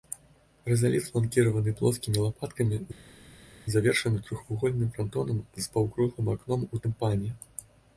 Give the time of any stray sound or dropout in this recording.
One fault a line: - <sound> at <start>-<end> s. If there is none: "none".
none